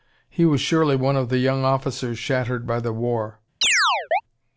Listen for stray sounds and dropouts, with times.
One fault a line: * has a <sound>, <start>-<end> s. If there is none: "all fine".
* has a chirp, 3.6-4.2 s